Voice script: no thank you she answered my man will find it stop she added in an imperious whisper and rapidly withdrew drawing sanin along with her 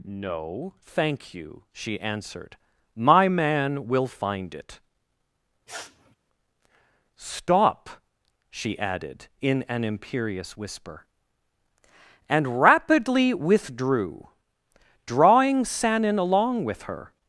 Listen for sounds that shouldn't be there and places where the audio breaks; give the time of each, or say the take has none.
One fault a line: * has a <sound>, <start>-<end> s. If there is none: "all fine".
* has a sniff, 5.7-6.2 s